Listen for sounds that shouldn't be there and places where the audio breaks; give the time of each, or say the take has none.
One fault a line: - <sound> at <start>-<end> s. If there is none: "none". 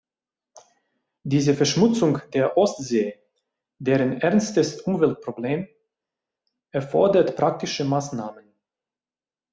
none